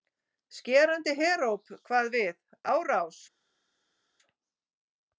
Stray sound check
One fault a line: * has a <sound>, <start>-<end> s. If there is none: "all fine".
all fine